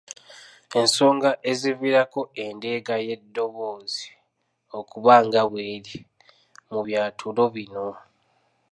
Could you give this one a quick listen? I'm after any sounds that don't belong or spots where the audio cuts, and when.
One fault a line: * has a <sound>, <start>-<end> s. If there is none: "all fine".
all fine